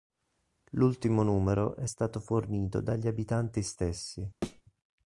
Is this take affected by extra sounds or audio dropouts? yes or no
yes